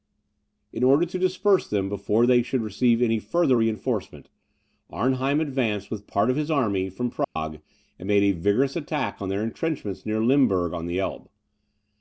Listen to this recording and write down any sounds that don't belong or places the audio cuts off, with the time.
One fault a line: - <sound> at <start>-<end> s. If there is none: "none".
- dropout at 7.2-7.4 s